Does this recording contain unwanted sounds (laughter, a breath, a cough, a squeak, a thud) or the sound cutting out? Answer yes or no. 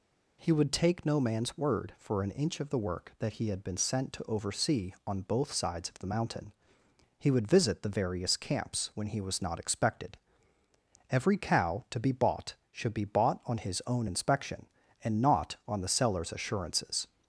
no